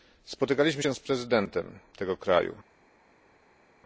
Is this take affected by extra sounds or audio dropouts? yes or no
no